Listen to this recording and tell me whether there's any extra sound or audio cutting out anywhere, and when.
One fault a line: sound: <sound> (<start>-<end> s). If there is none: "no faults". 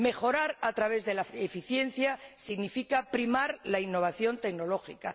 no faults